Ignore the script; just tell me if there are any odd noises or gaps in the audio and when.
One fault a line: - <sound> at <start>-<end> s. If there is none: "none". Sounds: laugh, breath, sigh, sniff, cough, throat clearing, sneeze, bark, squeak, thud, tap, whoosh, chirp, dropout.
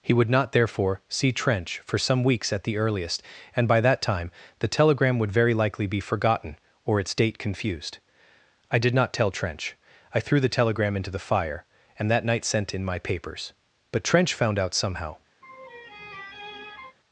- laugh at 15.4-17.0 s